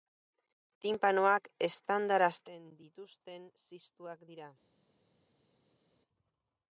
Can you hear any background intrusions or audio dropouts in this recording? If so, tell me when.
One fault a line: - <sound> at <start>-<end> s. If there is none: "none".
none